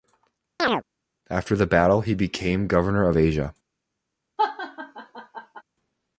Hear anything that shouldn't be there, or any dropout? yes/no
yes